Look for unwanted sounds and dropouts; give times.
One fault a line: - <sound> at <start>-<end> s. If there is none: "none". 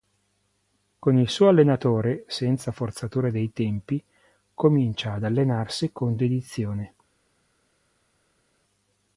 none